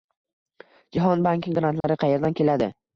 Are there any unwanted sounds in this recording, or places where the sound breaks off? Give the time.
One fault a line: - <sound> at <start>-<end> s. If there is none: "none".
- dropout at 1.8-1.8 s